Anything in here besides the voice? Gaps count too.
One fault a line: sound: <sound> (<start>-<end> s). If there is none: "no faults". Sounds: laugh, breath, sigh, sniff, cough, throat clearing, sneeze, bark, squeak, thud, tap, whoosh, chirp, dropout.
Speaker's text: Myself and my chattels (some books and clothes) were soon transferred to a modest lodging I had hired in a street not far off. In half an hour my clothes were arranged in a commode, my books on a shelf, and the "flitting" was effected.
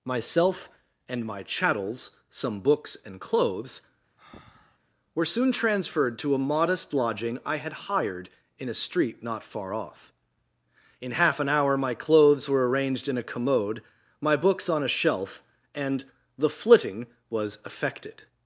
sound: breath (4.2-4.8 s)